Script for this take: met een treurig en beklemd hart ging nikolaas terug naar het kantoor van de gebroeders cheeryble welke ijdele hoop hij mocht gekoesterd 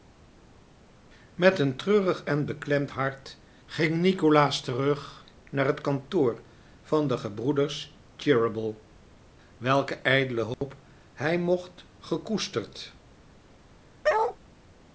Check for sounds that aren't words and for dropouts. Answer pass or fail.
fail